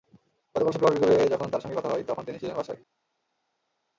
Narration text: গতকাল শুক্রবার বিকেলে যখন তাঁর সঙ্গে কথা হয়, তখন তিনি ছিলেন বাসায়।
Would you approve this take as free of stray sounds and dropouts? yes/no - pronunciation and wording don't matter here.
yes